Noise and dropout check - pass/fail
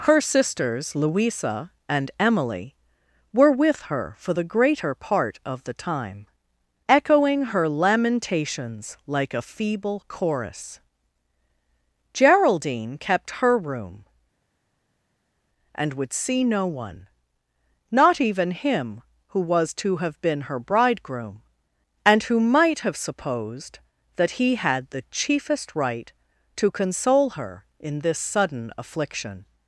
pass